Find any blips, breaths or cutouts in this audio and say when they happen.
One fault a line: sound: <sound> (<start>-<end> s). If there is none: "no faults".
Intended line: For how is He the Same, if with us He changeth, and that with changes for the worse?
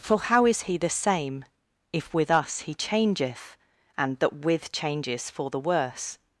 no faults